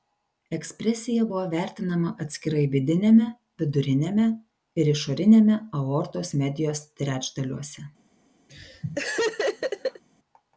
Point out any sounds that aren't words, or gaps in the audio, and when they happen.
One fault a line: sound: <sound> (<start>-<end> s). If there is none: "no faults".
sound: laugh (8.5-10.0 s)